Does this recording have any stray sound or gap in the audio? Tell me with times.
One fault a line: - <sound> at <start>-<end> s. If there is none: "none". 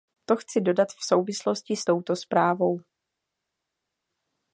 none